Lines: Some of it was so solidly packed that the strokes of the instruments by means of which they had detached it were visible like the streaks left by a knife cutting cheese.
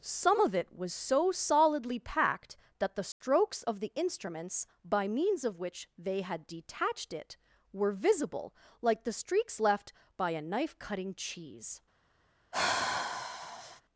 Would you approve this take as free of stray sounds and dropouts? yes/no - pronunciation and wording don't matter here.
no